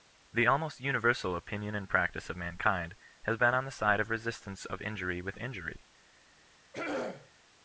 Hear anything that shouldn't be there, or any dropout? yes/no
yes